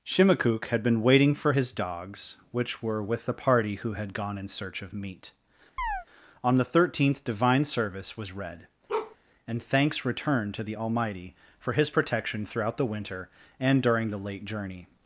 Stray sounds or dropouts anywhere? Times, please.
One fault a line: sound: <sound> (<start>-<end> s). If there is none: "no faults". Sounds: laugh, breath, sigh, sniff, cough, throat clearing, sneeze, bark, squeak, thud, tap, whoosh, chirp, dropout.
sound: chirp (5.8-6.1 s)
sound: bark (8.9-9.2 s)